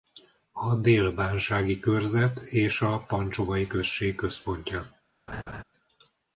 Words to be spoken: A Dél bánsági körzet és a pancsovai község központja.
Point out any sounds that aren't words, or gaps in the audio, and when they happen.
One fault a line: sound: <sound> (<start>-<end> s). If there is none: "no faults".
sound: laugh (5.3-5.6 s)